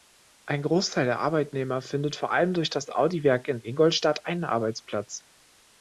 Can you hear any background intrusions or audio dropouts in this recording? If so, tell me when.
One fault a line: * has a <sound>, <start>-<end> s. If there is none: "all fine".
all fine